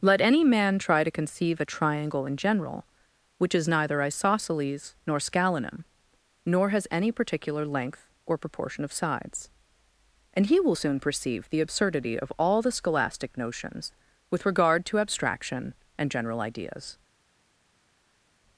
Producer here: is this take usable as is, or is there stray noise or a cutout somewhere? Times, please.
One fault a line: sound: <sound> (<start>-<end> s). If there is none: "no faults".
no faults